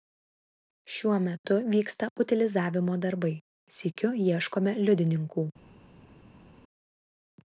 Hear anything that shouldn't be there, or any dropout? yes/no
no